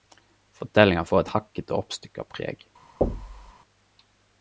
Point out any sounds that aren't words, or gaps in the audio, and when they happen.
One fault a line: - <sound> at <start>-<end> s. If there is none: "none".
- thud at 3.0-3.5 s